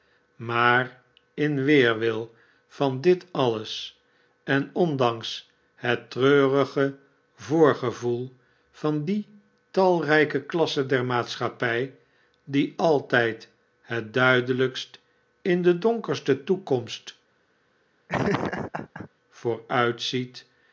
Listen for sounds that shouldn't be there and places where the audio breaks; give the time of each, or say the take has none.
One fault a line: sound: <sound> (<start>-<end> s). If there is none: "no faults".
sound: laugh (18.1-19.1 s)